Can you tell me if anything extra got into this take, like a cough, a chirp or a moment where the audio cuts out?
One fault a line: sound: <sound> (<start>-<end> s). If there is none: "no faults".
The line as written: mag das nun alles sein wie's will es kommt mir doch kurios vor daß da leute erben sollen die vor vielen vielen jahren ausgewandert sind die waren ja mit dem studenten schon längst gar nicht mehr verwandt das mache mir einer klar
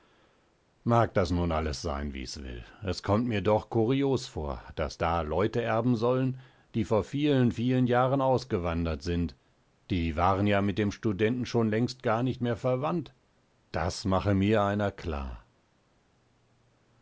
no faults